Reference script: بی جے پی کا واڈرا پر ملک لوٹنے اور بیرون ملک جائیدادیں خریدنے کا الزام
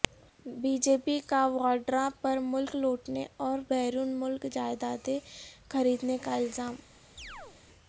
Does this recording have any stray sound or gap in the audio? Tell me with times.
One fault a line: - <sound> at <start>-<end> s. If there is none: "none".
- chirp at 7.2-7.6 s